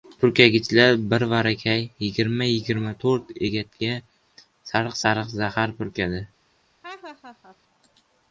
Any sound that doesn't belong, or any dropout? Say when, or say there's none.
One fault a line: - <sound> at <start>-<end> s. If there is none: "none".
- laugh at 6.8-7.6 s